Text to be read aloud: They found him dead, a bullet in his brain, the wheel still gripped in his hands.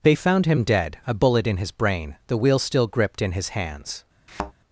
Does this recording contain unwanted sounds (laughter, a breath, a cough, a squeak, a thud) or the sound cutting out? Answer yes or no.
yes